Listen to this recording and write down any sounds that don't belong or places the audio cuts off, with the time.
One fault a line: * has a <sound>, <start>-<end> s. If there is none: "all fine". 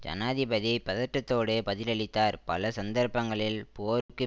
* has a dropout, 4.0-4.1 s